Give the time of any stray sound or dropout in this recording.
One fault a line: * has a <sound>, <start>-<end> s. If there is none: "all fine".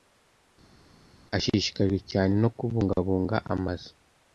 all fine